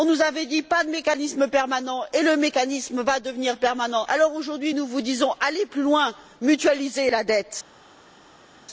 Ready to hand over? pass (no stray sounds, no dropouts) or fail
pass